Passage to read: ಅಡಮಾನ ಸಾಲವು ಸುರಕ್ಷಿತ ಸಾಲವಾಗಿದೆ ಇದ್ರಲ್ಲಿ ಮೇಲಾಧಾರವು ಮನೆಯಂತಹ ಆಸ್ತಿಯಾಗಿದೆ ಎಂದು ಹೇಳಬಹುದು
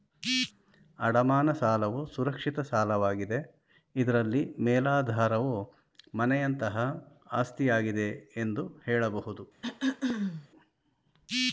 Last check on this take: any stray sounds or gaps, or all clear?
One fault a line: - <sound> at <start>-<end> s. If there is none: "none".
- throat clearing at 9.6-10.5 s